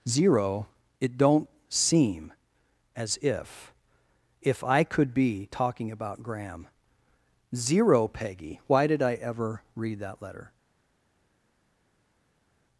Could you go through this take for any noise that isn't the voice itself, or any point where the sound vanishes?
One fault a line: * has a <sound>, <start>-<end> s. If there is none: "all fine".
all fine